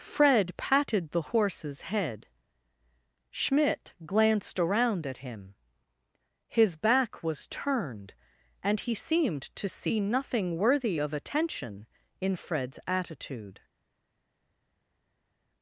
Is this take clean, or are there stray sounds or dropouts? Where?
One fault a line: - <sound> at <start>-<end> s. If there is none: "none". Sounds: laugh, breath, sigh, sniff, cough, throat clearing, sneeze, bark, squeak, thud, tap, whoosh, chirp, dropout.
none